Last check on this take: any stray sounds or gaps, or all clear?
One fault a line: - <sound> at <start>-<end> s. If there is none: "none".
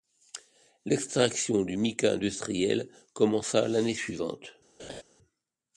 - laugh at 4.8-5.0 s